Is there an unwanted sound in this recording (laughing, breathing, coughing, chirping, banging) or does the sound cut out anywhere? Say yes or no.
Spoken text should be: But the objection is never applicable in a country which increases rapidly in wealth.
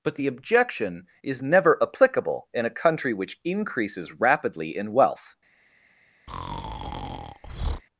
yes